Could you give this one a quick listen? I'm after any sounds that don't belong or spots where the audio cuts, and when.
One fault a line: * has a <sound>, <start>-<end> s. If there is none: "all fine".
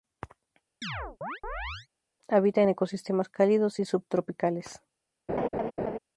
* has a chirp, 0.8-1.9 s
* has a laugh, 5.3-6.0 s